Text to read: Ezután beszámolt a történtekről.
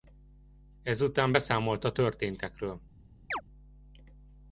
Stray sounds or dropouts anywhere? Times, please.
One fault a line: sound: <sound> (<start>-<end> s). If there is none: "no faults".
sound: chirp (3.3-3.4 s)